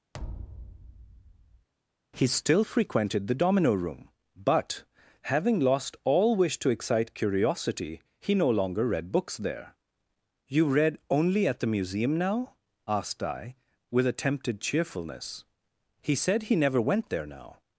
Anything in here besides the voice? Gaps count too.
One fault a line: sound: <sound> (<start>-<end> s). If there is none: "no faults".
sound: thud (0.1-1.7 s)